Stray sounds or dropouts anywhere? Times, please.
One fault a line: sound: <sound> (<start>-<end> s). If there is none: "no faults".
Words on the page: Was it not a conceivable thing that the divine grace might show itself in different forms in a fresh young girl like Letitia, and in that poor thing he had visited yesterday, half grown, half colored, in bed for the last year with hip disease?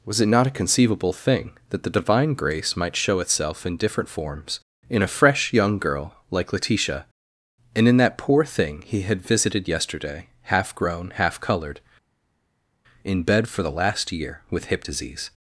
no faults